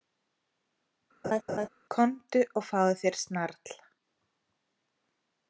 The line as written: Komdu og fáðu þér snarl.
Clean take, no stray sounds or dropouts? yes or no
no